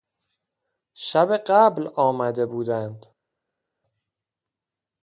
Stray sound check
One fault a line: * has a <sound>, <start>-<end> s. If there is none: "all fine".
all fine